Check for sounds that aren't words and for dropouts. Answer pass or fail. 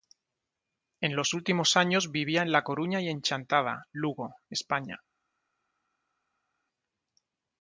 pass